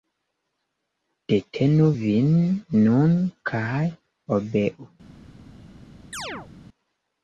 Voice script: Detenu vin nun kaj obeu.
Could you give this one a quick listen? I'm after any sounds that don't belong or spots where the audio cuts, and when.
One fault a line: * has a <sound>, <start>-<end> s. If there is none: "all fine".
* has a chirp, 6.1-6.5 s